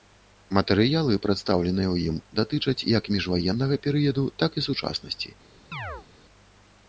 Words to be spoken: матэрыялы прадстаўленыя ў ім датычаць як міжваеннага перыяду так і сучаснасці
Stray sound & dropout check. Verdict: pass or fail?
fail